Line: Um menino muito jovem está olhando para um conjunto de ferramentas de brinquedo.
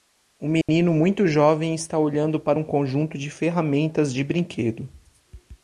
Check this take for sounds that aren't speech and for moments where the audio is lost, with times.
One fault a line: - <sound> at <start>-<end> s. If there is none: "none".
- dropout at 0.6-0.7 s